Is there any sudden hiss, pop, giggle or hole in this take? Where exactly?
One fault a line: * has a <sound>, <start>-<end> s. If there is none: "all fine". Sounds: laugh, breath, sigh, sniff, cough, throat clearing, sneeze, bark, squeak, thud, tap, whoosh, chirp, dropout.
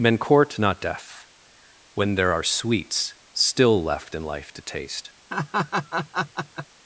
* has a laugh, 5.3-6.7 s